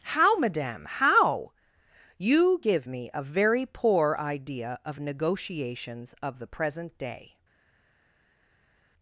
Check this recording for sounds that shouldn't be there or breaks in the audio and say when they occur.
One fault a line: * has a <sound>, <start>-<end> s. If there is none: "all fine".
all fine